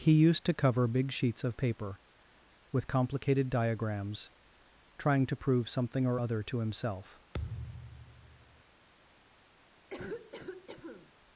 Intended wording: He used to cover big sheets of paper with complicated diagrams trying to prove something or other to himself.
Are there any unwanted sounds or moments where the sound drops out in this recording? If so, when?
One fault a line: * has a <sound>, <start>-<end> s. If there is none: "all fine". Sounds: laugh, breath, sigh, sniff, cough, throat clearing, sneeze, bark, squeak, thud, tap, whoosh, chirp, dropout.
* has a thud, 7.3-8.6 s
* has a cough, 9.9-11.1 s